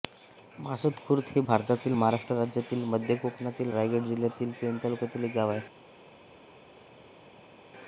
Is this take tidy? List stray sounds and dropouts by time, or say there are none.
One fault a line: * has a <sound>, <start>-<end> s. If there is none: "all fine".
all fine